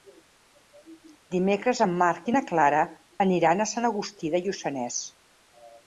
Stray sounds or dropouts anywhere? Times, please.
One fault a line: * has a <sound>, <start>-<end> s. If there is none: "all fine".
all fine